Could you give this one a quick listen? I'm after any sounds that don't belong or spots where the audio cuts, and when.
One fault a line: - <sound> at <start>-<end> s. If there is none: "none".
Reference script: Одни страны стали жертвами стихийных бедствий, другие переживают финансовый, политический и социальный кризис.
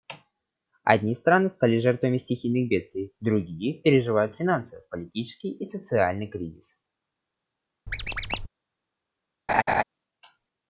- squeak at 7.9-8.5 s
- laugh at 9.5-9.8 s